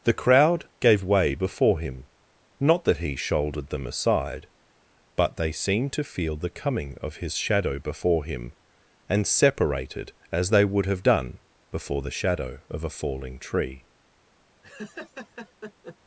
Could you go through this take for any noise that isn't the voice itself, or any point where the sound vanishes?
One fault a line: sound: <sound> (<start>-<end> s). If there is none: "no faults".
sound: laugh (14.6-16.0 s)